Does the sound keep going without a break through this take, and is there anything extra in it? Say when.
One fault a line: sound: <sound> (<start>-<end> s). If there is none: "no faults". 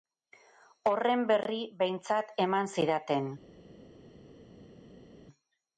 no faults